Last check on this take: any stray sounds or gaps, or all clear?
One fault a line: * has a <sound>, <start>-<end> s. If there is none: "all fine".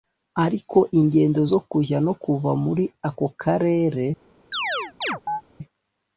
* has a chirp, 4.5-5.4 s